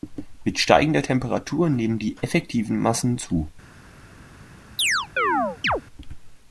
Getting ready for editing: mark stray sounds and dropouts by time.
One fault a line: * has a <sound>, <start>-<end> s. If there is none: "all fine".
* has a chirp, 4.8-5.8 s